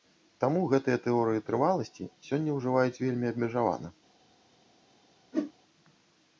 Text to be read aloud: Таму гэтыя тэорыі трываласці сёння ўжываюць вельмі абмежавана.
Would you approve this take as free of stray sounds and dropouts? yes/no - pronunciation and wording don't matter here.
no